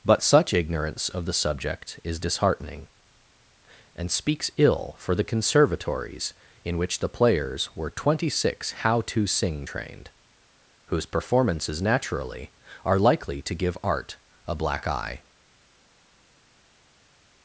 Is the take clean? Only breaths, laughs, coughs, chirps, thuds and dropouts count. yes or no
yes